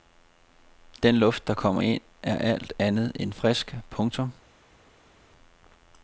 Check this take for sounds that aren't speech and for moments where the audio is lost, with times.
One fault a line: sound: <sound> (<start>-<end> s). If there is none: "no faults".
no faults